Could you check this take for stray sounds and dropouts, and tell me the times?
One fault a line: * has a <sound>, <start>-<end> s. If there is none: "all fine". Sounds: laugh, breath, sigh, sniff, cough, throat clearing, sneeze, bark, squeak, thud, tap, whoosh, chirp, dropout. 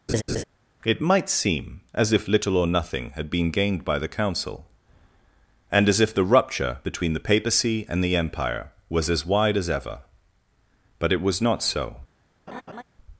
* has a laugh, 0.1-0.4 s
* has a laugh, 12.5-12.8 s